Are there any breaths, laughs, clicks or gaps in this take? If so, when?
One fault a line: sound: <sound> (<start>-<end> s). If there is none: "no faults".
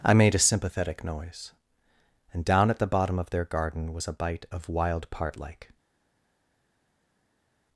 no faults